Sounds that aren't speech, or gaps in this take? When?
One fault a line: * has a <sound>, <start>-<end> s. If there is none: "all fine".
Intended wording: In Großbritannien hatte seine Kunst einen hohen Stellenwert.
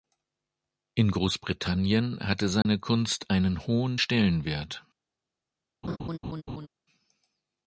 * has a dropout, 2.6-2.7 s
* has a laugh, 5.8-6.7 s